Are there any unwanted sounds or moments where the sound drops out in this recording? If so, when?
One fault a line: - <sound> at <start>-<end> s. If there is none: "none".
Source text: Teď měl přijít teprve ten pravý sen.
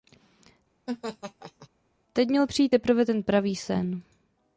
- laugh at 0.9-1.7 s